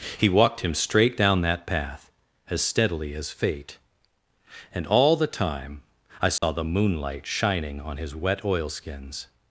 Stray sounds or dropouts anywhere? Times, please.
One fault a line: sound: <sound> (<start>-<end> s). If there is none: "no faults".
sound: dropout (6.4-6.4 s)